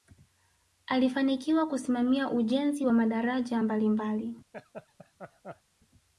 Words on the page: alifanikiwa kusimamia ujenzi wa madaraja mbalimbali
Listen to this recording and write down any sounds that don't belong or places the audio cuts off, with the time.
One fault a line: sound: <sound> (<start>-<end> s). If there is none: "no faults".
sound: laugh (4.5-5.6 s)